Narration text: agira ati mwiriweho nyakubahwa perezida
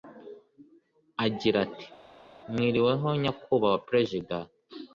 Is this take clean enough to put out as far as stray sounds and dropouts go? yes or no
yes